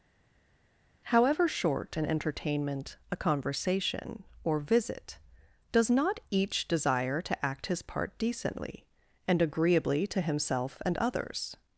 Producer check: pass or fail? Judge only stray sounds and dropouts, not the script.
pass